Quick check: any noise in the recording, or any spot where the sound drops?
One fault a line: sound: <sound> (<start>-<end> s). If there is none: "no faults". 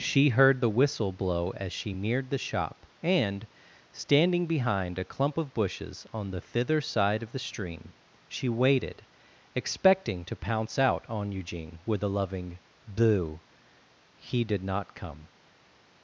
no faults